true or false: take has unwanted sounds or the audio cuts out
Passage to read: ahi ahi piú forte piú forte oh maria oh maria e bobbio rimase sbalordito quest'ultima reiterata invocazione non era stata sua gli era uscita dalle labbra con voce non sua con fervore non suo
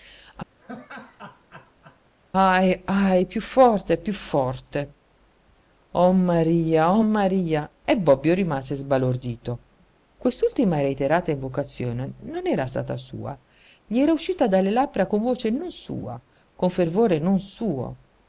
true